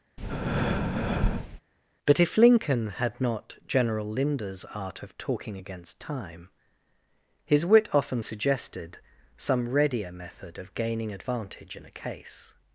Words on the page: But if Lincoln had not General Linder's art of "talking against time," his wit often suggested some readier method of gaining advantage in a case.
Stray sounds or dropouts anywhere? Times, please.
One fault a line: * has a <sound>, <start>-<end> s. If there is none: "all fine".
* has a breath, 0.2-1.6 s